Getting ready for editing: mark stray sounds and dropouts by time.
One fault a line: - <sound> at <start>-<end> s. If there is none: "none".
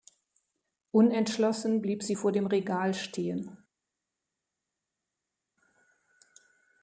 none